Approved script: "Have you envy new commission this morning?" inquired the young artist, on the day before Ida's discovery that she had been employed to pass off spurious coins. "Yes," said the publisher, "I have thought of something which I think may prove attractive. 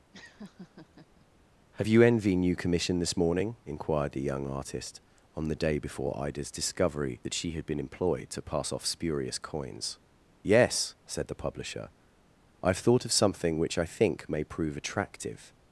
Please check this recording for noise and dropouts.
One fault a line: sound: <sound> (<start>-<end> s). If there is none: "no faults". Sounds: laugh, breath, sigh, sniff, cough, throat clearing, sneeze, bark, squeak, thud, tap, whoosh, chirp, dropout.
sound: laugh (0.1-1.3 s)